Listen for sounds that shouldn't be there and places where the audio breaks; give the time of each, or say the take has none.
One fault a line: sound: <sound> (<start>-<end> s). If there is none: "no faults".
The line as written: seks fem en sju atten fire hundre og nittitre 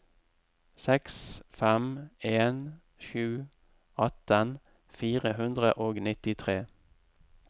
no faults